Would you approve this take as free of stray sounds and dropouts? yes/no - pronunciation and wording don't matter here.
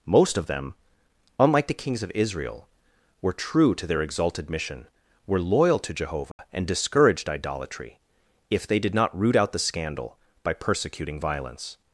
no